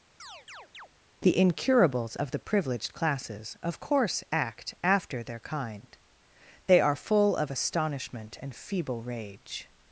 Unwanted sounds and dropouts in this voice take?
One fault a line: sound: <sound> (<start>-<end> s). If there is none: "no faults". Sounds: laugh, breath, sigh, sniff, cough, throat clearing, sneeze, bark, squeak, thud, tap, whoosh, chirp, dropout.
sound: chirp (0.2-0.9 s)